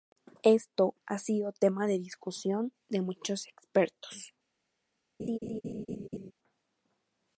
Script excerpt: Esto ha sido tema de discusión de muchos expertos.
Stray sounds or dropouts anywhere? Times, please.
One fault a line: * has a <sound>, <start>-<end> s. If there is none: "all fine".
* has a laugh, 5.2-6.3 s